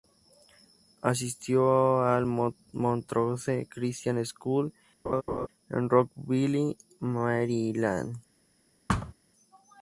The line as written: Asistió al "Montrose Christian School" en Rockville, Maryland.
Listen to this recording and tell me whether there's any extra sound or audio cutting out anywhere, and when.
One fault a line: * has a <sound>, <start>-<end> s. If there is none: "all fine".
* has a laugh, 5.1-5.5 s
* has a thud, 8.9-9.1 s